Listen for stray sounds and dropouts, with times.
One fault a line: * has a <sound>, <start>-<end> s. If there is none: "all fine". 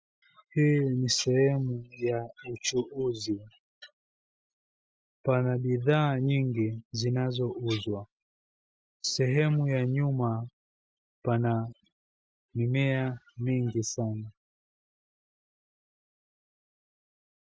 all fine